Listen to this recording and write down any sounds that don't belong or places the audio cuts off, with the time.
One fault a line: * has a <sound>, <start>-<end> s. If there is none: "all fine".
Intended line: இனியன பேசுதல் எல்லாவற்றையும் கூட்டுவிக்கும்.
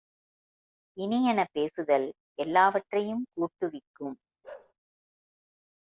* has a bark, 4.4-4.7 s